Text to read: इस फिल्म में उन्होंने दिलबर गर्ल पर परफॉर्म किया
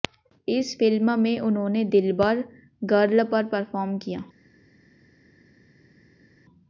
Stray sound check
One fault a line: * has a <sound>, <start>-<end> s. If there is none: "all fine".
all fine